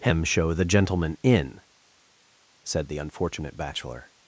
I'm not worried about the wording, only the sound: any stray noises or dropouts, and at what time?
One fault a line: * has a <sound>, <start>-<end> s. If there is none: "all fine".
all fine